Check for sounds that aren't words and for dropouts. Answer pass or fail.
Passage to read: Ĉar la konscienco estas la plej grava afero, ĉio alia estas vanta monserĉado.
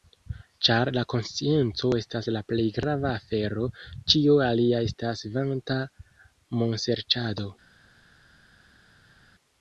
pass